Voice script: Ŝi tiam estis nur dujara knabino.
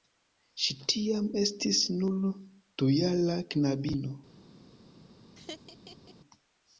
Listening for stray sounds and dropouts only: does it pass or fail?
fail